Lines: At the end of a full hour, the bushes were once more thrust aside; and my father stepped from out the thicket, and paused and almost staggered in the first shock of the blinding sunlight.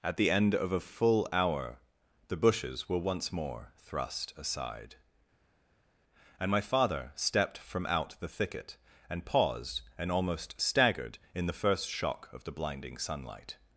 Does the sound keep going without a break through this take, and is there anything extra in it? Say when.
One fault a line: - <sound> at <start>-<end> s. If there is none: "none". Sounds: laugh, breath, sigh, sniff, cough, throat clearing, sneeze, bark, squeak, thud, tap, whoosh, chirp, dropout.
none